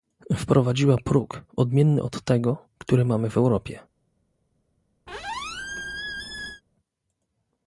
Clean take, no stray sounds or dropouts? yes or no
no